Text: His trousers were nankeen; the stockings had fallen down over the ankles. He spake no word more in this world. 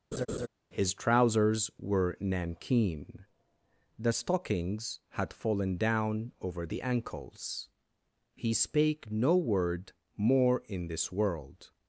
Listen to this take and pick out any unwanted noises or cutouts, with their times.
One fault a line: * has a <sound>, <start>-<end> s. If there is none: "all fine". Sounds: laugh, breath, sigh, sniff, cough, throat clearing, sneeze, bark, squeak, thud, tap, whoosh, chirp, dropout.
* has a laugh, 0.1-0.5 s